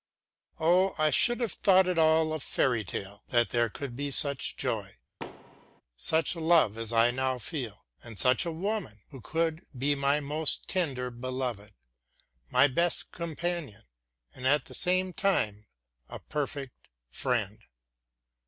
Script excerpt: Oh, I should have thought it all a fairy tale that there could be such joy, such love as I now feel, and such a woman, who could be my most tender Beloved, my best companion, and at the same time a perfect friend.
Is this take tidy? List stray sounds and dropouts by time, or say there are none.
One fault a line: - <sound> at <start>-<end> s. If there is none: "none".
- thud at 5.2-5.8 s